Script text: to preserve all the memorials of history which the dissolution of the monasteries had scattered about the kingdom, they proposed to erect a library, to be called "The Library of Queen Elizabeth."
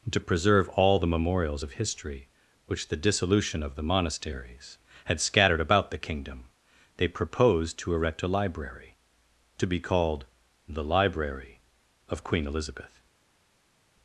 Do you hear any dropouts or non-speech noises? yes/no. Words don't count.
no